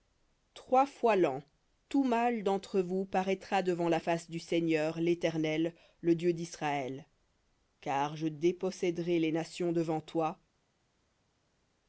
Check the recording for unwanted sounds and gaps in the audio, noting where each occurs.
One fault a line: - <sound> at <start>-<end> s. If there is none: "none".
none